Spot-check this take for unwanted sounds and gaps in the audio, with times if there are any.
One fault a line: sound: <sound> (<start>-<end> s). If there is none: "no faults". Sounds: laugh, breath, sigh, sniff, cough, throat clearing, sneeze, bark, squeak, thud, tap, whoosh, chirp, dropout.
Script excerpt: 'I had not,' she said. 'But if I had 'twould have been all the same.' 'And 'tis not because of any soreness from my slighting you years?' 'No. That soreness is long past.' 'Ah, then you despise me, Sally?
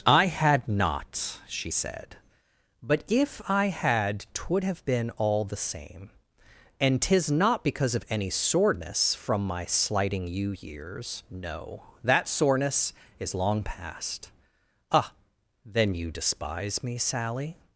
no faults